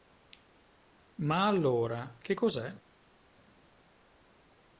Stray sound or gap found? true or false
false